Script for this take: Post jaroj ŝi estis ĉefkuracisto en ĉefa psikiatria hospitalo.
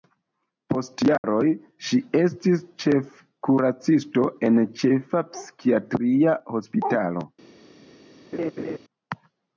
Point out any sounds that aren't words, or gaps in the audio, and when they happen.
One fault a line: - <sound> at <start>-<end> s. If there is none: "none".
- dropout at 1.2-1.2 s
- laugh at 8.3-8.8 s